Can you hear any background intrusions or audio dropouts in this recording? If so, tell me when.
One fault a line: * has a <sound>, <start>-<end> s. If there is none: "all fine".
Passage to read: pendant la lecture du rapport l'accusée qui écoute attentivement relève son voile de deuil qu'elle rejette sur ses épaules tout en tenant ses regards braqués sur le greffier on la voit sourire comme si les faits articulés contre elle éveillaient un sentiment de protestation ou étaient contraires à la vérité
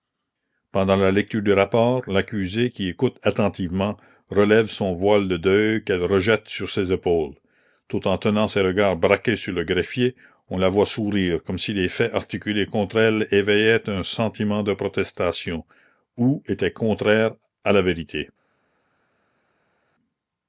all fine